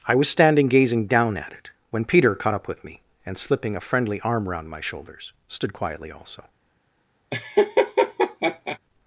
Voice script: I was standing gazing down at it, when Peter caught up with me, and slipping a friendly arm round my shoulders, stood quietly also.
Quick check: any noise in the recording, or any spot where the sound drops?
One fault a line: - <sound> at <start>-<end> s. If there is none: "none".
- laugh at 7.3-8.8 s